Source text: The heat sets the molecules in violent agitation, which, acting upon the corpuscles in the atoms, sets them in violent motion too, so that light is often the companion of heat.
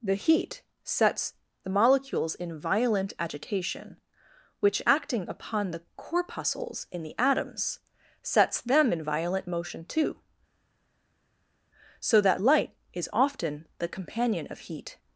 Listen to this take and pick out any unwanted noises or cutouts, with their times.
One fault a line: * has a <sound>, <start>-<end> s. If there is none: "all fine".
all fine